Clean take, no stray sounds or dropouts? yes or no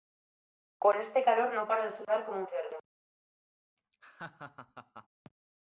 no